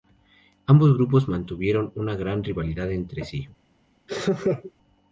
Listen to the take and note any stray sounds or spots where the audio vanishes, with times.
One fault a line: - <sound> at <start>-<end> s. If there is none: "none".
- laugh at 4.1-4.7 s